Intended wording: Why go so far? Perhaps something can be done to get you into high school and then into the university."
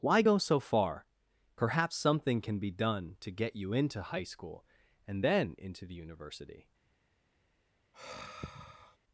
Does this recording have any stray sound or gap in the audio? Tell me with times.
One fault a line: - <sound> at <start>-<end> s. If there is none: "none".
- sigh at 7.9-9.0 s